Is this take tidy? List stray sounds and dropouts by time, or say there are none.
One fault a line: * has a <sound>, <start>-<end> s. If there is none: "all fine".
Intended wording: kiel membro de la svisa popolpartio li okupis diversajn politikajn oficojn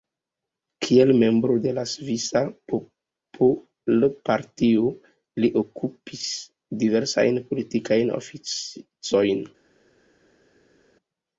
all fine